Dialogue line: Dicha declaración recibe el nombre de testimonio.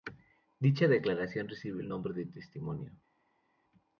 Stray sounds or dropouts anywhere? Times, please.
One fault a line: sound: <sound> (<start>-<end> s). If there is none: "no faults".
no faults